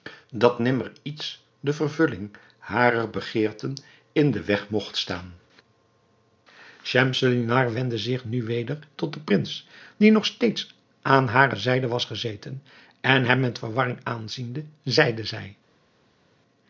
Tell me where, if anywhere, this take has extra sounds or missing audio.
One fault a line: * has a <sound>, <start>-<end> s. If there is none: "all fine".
all fine